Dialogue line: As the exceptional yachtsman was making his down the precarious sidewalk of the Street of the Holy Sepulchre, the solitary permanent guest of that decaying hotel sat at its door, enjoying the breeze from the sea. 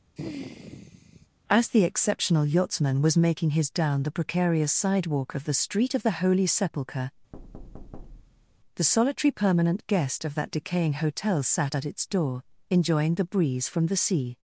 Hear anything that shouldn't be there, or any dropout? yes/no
yes